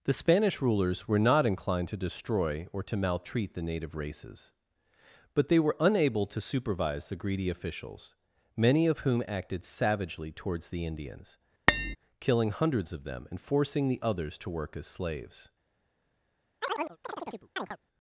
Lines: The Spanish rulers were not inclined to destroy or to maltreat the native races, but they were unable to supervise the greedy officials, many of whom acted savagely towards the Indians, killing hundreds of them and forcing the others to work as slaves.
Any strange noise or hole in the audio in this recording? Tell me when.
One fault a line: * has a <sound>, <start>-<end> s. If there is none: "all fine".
* has a tap, 11.7-12.0 s
* has a chirp, 16.6-17.8 s